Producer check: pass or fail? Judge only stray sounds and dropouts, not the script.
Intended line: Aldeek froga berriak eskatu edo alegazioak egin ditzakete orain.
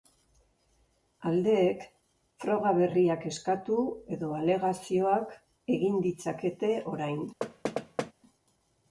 fail